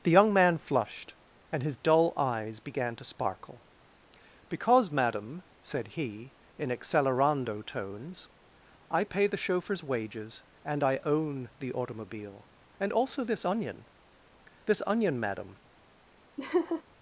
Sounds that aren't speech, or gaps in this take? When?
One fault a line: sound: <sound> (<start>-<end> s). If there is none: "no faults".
sound: laugh (16.4-16.8 s)